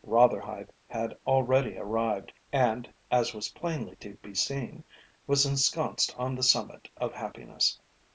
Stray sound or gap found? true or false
false